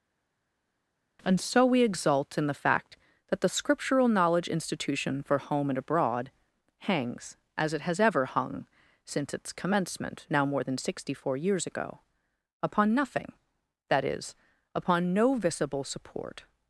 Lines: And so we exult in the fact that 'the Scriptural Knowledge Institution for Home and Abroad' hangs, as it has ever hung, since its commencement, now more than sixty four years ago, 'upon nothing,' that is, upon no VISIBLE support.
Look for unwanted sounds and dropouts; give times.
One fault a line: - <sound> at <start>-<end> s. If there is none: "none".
none